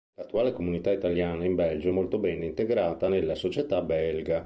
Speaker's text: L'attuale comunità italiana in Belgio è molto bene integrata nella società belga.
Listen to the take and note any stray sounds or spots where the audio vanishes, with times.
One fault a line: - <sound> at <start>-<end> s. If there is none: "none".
none